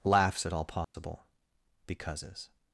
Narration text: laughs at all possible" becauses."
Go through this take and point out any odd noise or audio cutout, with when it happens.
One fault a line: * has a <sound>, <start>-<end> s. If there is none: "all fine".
* has a dropout, 0.8-0.9 s